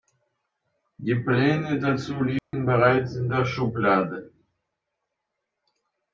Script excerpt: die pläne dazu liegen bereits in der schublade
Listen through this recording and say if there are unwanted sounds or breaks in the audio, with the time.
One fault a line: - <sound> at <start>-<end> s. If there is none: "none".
- dropout at 2.4-2.5 s